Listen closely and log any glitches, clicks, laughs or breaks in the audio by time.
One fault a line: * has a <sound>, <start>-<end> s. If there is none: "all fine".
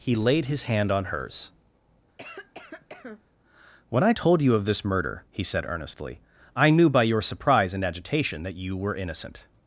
* has a cough, 2.2-3.2 s